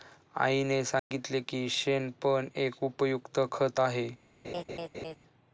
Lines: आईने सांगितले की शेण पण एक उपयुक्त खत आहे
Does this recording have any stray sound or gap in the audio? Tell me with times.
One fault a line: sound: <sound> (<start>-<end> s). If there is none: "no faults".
sound: dropout (1.0-1.1 s)
sound: laugh (4.4-5.2 s)